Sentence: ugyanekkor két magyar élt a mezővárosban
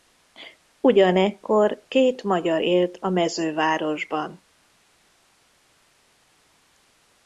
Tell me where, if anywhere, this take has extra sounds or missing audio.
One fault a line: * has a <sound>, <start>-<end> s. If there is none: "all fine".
all fine